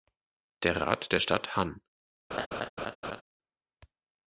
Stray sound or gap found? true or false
true